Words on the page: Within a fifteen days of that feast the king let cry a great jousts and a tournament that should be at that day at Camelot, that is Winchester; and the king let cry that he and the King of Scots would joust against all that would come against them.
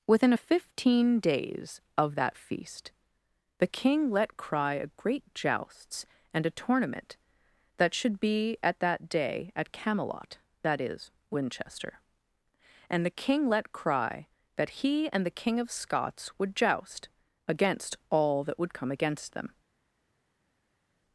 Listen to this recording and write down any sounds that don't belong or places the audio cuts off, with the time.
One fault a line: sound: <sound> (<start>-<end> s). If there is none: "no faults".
no faults